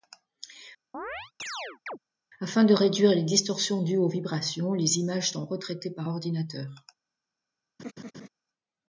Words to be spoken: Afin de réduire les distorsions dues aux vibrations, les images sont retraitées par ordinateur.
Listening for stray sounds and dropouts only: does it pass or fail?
fail